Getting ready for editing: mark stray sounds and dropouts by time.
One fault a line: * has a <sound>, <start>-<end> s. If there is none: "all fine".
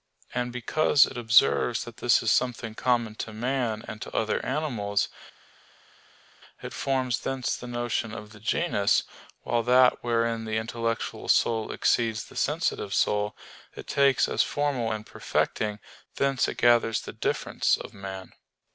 all fine